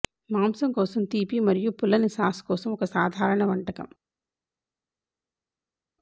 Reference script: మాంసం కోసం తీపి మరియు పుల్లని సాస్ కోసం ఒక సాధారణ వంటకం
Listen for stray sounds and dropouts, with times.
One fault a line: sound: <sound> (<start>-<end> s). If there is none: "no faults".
no faults